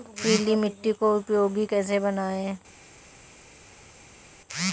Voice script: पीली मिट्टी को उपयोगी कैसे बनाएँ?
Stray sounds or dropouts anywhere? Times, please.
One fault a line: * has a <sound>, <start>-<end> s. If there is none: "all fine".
all fine